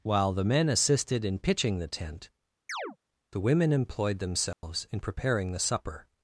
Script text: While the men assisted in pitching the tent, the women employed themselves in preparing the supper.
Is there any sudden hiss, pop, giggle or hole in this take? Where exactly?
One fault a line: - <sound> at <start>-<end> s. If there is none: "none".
- chirp at 2.7-3.0 s
- dropout at 4.5-4.6 s